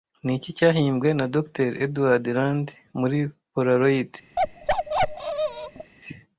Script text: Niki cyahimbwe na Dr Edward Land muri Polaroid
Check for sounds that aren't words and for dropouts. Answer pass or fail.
fail